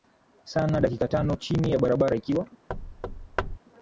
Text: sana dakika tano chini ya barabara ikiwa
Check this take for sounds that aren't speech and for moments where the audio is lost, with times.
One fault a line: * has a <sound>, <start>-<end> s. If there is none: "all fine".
* has a thud, 2.7-3.6 s